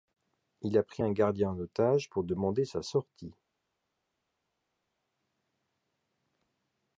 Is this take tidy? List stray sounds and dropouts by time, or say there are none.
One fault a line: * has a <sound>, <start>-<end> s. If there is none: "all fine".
all fine